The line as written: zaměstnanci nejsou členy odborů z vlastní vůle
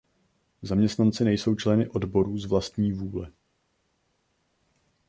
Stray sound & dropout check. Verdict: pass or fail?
pass